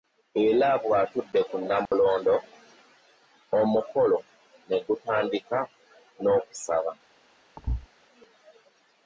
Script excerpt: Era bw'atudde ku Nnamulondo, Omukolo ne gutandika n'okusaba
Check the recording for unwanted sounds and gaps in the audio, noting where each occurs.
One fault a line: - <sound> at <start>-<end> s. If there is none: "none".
- dropout at 1.9-1.9 s
- thud at 7.6-7.9 s